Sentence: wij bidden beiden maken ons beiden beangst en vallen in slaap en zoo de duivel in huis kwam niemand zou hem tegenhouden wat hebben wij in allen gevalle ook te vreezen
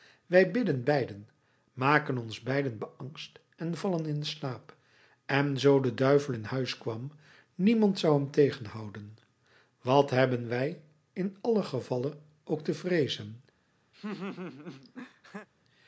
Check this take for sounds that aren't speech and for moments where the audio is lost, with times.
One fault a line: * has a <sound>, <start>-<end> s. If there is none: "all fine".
* has a laugh, 13.9-15.5 s